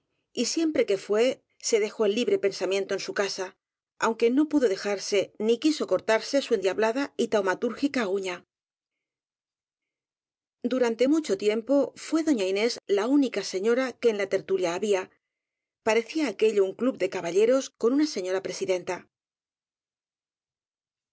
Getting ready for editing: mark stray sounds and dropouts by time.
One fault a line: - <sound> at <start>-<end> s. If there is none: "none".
none